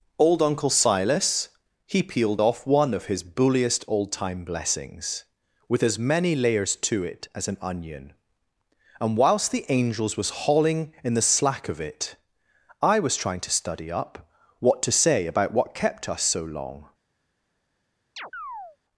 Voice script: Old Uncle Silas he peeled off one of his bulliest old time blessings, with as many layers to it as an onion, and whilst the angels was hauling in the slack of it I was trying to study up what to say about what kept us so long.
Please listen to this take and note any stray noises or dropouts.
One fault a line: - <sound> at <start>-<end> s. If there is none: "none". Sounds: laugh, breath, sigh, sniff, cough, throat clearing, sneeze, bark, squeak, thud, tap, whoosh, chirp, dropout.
- chirp at 18.2-18.8 s